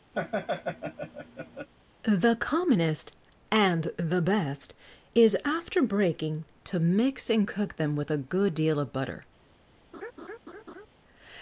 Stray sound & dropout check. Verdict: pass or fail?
fail